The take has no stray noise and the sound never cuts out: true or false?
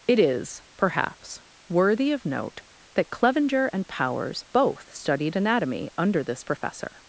true